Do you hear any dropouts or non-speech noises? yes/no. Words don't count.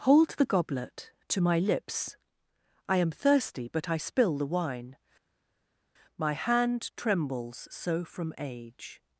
no